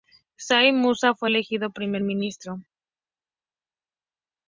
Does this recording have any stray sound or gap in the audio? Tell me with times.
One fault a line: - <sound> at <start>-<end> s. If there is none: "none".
none